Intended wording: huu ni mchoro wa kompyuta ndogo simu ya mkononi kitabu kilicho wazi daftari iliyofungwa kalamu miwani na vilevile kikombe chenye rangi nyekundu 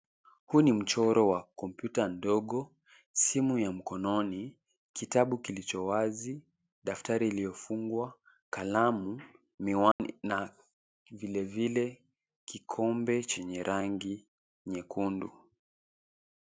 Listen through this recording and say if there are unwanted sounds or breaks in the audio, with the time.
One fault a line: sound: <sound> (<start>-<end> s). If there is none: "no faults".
sound: dropout (9.9-10.0 s)